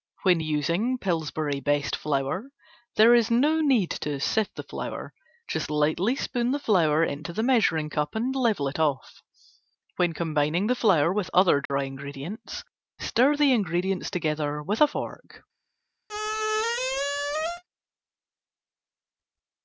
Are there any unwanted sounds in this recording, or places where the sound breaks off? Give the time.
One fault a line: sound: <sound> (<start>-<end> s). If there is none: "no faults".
sound: dropout (11.7-11.7 s)
sound: squeak (16.1-17.6 s)